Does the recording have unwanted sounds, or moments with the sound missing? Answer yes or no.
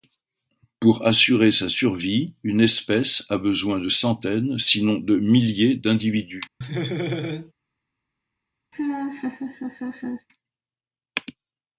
yes